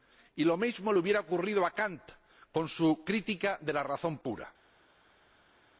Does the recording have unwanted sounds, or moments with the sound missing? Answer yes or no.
no